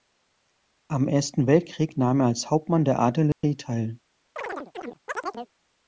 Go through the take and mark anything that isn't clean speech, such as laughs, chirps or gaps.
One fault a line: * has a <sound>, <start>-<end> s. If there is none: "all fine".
* has a dropout, 3.3-3.4 s
* has a chirp, 4.4-5.5 s